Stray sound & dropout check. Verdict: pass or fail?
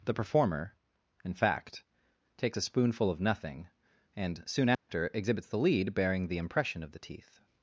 fail